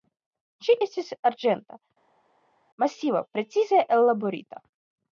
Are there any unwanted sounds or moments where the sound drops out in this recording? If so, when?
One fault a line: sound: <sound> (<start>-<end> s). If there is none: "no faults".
no faults